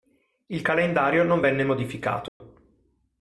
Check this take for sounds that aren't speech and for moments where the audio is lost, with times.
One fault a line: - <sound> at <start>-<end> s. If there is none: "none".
- dropout at 2.3-2.4 s